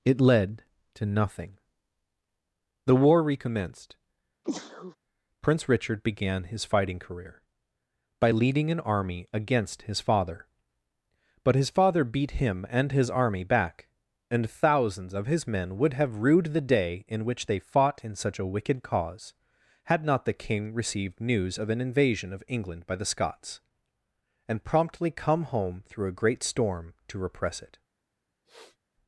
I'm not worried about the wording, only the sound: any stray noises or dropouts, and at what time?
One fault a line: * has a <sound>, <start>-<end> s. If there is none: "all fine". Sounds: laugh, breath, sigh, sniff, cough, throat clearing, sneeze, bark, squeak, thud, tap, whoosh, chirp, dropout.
* has a sneeze, 4.4-5.0 s
* has a sniff, 28.4-28.8 s